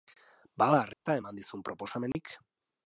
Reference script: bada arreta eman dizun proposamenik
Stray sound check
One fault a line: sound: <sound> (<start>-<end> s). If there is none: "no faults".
sound: dropout (0.9-1.1 s)
sound: dropout (2.1-2.1 s)